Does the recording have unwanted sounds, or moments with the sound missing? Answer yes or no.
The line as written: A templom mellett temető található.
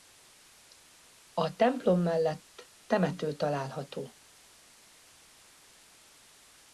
no